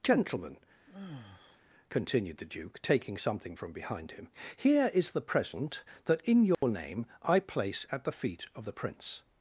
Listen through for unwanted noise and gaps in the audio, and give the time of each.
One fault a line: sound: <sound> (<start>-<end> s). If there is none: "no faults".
sound: sigh (0.9-1.6 s)
sound: dropout (6.5-6.6 s)